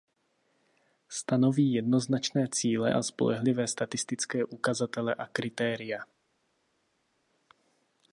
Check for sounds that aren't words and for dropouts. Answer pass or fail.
pass